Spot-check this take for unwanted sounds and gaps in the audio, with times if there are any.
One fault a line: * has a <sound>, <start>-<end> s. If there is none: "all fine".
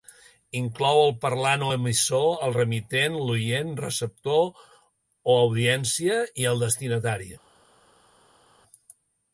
all fine